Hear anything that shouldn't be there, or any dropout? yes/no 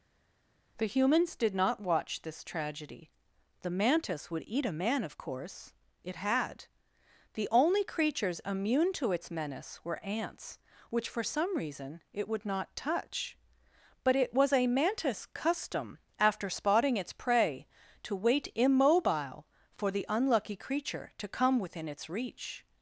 no